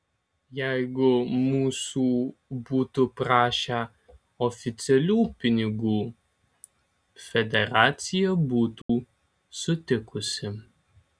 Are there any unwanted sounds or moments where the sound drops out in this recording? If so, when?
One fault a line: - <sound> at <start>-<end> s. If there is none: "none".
- dropout at 8.8-8.9 s